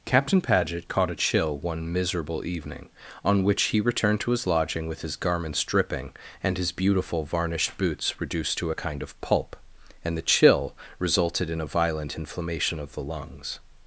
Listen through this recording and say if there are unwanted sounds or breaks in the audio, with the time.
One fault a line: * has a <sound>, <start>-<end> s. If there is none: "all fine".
all fine